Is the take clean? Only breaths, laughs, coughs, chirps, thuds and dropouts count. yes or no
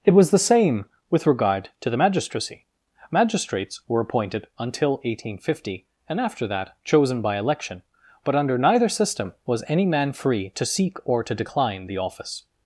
yes